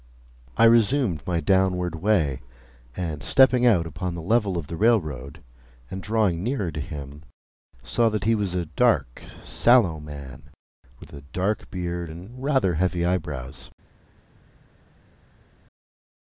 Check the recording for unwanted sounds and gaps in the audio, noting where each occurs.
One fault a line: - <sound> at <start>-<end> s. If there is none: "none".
none